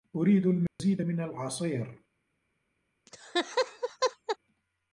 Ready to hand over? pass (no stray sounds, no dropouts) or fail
fail